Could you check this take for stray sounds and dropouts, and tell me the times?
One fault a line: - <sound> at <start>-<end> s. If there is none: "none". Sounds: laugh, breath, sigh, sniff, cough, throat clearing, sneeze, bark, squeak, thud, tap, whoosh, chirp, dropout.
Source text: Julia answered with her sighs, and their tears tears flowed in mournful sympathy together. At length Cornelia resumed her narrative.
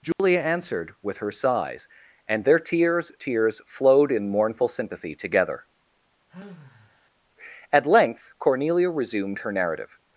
- dropout at 0.1-0.2 s
- sigh at 6.3-7.1 s